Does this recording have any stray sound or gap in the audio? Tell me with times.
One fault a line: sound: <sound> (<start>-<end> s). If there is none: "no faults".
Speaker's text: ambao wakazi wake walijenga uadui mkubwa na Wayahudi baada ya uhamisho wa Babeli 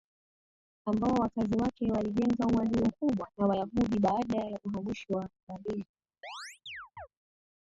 sound: chirp (6.2-7.1 s)